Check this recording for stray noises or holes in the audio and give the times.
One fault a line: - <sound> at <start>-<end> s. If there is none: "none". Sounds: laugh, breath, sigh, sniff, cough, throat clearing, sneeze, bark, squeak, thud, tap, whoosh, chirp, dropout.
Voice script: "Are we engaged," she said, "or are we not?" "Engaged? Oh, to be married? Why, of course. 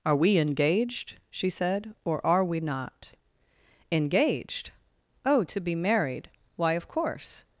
none